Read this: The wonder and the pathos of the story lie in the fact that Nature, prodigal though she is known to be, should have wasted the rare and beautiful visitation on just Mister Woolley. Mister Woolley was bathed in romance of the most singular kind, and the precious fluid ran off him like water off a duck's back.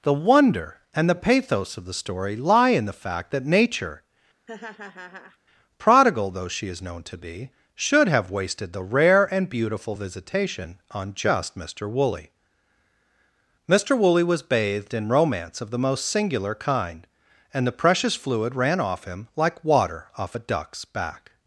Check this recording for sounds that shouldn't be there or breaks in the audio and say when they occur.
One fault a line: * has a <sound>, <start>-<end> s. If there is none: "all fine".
* has a laugh, 4.5-5.4 s